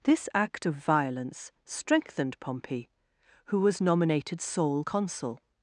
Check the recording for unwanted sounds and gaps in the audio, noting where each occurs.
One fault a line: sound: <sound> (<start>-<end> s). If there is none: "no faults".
no faults